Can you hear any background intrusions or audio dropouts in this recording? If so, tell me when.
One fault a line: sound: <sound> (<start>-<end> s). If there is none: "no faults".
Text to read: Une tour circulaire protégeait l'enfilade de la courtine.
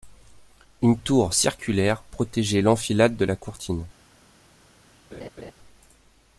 sound: laugh (5.1-5.5 s)